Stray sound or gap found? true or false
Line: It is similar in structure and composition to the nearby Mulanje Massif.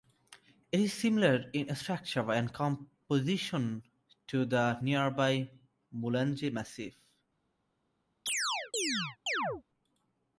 true